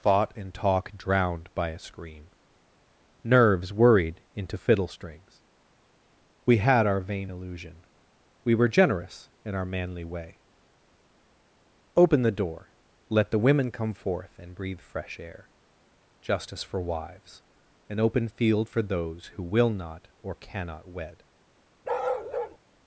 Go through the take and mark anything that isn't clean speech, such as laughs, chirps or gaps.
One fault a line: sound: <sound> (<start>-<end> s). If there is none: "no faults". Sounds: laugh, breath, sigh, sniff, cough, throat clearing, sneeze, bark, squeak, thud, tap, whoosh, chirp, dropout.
sound: bark (21.8-22.6 s)